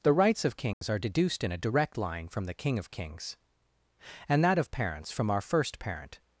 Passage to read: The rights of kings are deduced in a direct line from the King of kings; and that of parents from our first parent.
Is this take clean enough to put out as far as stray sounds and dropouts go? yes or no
no